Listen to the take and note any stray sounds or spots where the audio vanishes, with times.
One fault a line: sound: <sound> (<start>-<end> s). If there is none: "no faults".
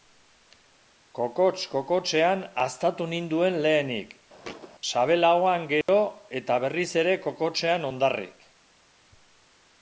sound: thud (4.4-4.7 s)
sound: dropout (5.8-5.9 s)